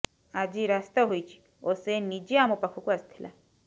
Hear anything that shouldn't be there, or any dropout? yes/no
no